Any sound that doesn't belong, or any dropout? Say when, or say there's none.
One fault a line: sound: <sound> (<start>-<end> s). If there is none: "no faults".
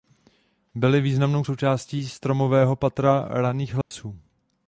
sound: dropout (3.8-3.9 s)